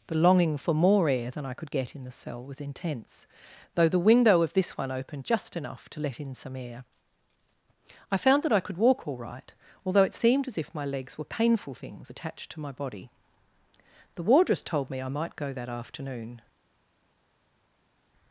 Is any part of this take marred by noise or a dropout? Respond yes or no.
no